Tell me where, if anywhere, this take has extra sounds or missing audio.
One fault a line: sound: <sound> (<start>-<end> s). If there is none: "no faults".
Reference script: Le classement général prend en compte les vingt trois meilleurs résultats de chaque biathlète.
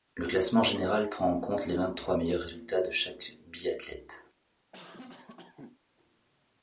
sound: cough (4.7-5.8 s)